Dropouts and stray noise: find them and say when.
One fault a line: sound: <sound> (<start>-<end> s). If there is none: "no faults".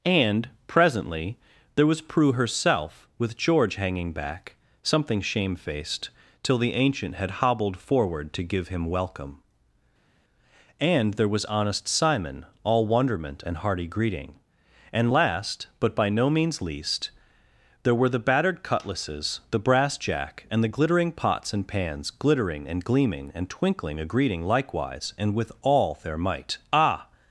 no faults